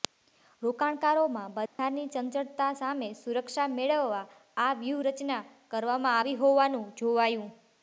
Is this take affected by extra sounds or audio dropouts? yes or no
yes